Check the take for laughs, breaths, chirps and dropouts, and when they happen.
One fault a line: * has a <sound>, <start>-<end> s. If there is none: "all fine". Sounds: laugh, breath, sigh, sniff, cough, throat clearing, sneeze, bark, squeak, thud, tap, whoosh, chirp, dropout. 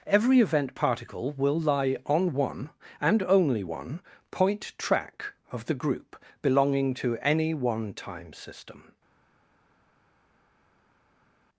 all fine